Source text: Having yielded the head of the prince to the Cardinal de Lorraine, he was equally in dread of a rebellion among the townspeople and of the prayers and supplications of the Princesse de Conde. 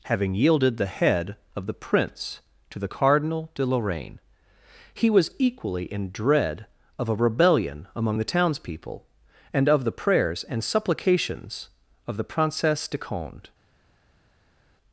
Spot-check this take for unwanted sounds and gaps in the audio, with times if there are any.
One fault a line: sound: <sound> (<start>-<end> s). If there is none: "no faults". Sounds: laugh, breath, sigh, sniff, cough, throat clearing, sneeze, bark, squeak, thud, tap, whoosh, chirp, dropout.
no faults